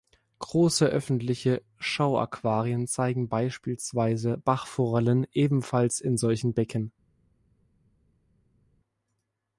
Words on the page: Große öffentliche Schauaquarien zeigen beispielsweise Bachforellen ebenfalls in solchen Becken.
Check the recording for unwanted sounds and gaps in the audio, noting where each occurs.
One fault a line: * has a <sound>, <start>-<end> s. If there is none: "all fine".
all fine